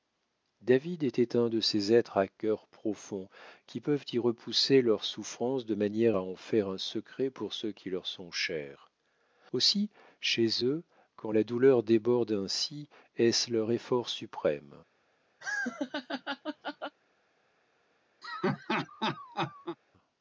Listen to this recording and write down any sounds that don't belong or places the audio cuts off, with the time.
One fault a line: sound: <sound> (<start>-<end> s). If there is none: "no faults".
sound: laugh (15.4-17.0 s)
sound: laugh (18.2-19.8 s)